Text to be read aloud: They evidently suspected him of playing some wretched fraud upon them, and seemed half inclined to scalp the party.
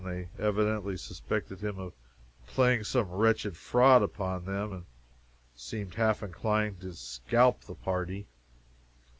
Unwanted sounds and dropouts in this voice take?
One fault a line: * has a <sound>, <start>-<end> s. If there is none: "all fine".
all fine